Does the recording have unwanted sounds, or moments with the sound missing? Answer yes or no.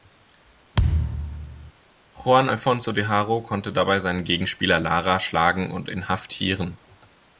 yes